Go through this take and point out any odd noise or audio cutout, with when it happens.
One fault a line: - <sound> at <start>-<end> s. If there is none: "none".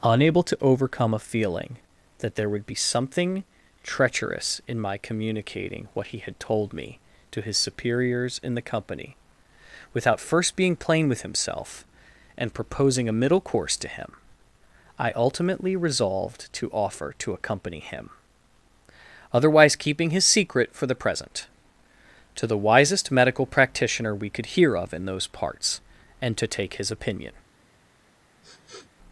- sniff at 28.4-28.9 s